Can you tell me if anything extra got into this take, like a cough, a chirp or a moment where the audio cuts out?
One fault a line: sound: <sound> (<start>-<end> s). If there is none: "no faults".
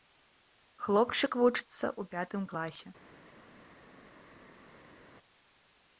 no faults